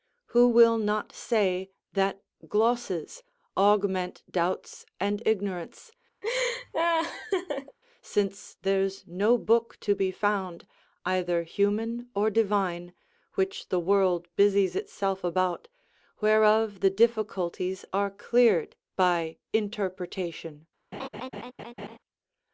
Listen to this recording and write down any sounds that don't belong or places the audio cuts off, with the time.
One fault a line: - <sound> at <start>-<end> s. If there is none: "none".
- laugh at 6.2-7.8 s
- laugh at 20.9-22.0 s